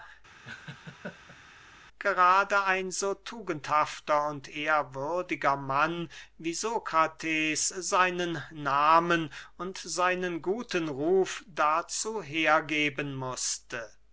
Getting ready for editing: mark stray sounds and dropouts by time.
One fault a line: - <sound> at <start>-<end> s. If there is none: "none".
- laugh at 0.4-1.4 s